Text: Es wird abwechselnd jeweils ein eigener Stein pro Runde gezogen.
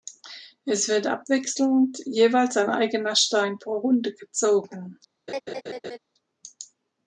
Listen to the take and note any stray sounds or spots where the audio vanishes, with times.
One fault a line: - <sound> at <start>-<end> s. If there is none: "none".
- laugh at 5.3-6.0 s